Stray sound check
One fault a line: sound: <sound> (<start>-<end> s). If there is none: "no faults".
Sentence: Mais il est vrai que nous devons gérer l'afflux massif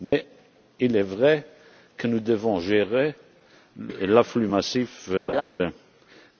sound: dropout (0.0-0.1 s)
sound: laugh (5.3-5.4 s)